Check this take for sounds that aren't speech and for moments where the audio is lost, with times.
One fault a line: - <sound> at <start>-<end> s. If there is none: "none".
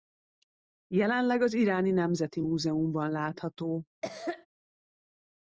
- cough at 4.0-4.5 s